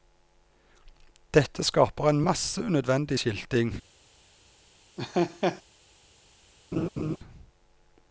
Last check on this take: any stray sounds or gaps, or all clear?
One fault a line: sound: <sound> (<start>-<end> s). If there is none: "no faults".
sound: laugh (5.0-5.6 s)
sound: laugh (6.7-7.2 s)